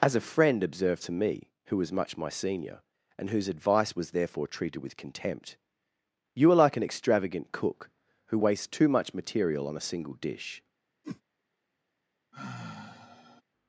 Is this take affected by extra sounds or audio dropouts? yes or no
yes